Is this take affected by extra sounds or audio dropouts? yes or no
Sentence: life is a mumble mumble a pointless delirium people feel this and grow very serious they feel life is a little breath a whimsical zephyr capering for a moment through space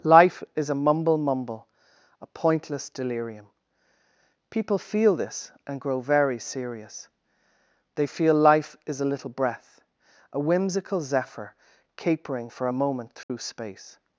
yes